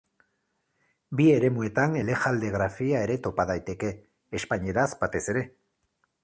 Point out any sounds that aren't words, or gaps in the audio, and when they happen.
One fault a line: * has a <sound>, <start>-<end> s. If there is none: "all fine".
all fine